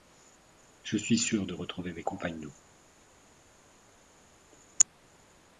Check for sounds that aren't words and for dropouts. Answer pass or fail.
pass